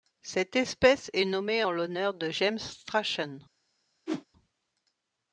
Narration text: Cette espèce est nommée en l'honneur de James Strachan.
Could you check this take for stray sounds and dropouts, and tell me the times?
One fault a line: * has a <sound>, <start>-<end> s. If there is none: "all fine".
* has a whoosh, 4.1-4.3 s